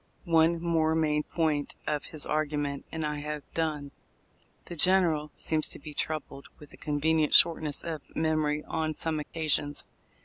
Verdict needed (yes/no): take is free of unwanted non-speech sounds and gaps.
no